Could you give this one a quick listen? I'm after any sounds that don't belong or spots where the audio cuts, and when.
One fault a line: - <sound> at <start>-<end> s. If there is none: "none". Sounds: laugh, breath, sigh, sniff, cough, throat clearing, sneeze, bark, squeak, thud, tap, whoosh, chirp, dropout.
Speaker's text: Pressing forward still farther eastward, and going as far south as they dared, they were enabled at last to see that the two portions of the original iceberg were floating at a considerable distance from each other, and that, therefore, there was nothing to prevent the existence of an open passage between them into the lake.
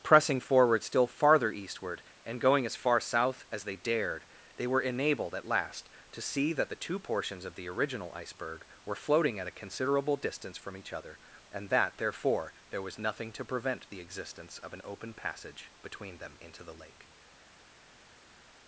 none